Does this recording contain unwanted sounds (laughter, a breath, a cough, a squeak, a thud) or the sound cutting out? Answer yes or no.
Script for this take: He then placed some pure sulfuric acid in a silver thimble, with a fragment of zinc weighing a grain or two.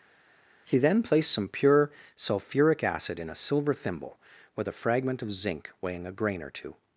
no